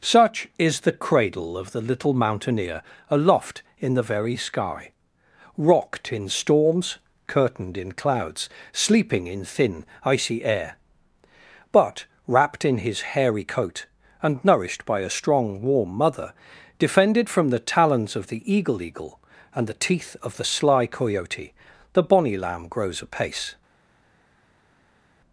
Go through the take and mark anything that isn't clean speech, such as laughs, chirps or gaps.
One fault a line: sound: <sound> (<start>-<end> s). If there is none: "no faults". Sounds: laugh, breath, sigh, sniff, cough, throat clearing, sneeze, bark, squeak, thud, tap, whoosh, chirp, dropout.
no faults